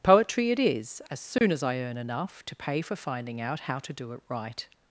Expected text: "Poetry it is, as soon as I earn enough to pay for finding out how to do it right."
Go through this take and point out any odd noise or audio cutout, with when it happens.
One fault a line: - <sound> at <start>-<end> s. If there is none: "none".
- dropout at 1.4-1.4 s